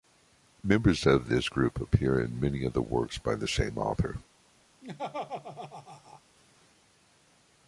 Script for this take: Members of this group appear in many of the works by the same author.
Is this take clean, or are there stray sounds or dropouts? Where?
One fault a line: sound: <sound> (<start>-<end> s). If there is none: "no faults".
sound: laugh (4.8-6.2 s)